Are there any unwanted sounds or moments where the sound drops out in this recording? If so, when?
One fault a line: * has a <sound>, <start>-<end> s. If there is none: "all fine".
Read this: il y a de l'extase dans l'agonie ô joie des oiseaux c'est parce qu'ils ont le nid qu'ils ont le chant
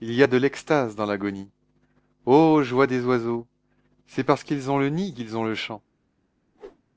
* has a whoosh, 6.5-6.8 s